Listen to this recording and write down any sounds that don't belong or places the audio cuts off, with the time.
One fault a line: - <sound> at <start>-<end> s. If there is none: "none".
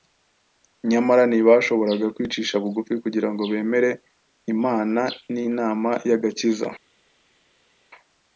none